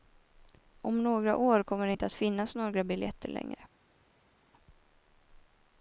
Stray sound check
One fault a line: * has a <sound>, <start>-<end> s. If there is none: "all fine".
all fine